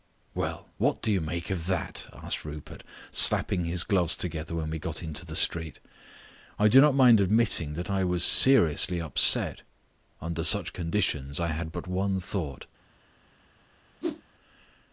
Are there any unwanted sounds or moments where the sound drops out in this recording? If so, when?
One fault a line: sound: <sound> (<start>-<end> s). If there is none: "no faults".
sound: whoosh (14.0-14.2 s)